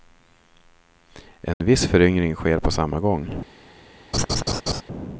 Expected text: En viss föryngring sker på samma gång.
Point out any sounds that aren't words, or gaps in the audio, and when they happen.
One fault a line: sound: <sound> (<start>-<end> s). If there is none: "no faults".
sound: dropout (1.5-1.6 s)
sound: laugh (4.1-4.8 s)